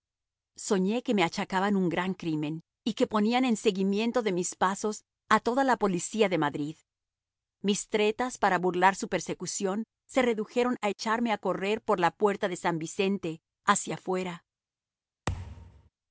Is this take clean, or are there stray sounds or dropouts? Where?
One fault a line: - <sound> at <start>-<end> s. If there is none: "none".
- thud at 15.3-15.9 s